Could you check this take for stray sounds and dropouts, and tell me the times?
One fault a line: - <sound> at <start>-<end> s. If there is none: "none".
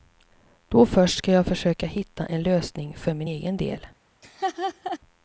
- laugh at 4.2-5.0 s